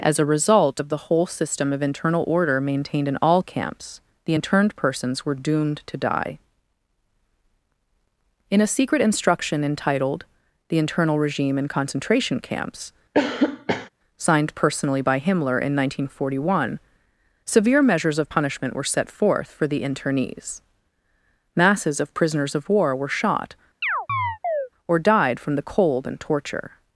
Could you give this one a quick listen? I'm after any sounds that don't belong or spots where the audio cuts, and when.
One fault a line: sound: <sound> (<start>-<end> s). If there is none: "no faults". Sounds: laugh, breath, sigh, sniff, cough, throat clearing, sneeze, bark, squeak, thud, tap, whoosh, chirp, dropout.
sound: cough (13.1-13.9 s)
sound: chirp (23.8-24.7 s)